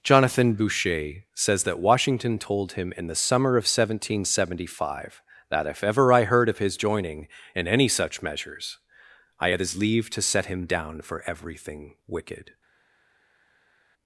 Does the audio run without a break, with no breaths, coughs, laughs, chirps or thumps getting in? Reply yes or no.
yes